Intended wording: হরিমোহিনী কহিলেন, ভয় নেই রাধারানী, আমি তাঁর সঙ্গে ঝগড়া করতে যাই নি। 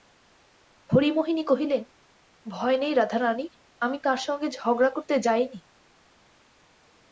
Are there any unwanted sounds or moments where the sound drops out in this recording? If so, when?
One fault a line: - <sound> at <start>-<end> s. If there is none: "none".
none